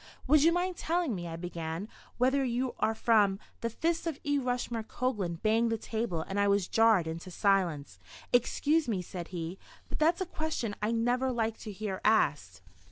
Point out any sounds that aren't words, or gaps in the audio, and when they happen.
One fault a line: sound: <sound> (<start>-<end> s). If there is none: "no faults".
no faults